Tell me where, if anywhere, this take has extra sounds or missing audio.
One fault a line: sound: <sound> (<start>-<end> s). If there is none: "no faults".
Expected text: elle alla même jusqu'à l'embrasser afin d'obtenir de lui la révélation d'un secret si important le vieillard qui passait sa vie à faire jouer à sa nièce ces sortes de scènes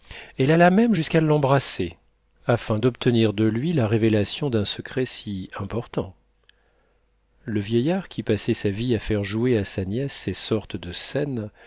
no faults